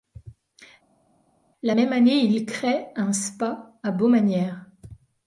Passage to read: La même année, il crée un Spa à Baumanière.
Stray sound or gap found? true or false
false